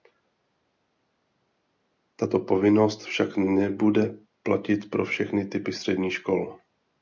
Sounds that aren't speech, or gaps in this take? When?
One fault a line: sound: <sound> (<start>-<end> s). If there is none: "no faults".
no faults